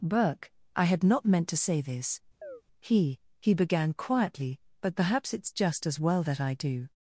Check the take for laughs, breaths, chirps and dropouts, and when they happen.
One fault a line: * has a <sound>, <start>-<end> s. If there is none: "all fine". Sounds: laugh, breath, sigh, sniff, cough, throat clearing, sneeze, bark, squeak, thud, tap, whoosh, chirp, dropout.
* has a chirp, 2.4-2.6 s